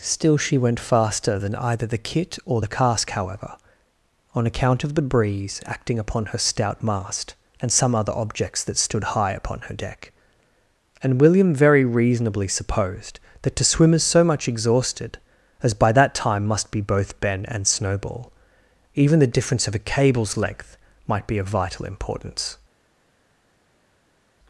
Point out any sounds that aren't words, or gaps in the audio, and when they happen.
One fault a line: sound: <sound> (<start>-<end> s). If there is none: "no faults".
no faults